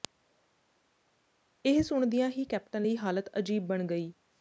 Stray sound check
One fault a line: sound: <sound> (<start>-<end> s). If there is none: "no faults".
no faults